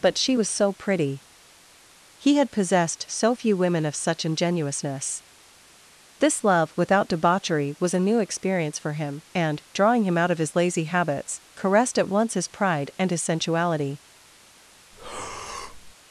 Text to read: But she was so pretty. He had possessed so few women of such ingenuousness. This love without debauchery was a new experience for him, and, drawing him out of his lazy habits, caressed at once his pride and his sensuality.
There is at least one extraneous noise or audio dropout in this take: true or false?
true